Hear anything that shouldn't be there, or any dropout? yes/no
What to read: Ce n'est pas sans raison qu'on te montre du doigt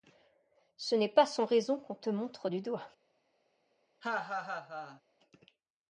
yes